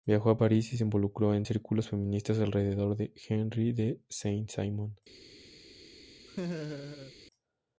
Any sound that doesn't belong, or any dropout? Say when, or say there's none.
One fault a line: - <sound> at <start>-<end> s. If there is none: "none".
- laugh at 6.3-7.1 s